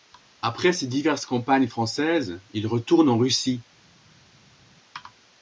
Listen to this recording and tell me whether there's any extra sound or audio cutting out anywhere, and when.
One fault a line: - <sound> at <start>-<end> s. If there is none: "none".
none